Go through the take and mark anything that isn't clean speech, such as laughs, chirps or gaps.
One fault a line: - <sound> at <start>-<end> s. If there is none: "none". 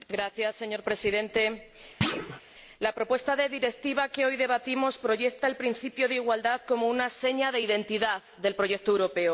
- thud at 2.0-2.4 s